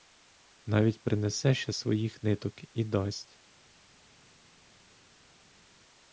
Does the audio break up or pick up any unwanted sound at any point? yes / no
no